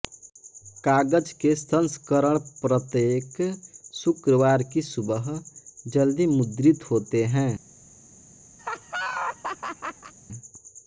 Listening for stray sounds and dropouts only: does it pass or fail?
fail